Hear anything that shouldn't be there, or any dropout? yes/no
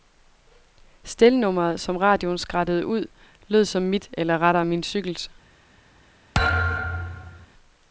yes